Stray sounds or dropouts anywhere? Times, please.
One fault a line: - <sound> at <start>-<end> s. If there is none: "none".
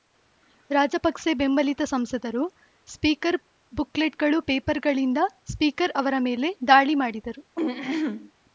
- throat clearing at 7.6-8.3 s